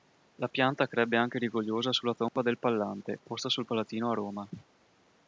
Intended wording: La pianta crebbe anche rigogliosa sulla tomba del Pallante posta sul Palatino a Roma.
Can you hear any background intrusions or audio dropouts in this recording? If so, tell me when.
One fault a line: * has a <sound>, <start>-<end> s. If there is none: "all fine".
* has a dropout, 2.3-2.4 s